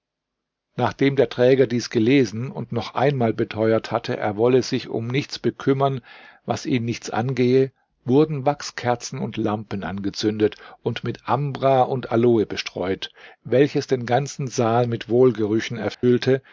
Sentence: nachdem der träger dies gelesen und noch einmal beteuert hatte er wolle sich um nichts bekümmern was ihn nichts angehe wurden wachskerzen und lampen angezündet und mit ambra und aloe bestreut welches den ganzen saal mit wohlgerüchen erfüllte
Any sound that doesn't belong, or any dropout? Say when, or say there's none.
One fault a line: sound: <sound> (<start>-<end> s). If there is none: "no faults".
sound: dropout (15.9-16.0 s)